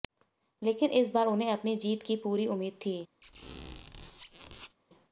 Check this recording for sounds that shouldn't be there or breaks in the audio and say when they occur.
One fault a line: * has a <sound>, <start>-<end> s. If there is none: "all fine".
* has a squeak, 3.2-4.8 s